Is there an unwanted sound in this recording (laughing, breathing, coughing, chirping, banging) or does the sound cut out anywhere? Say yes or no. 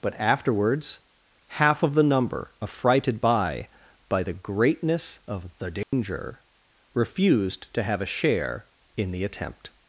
yes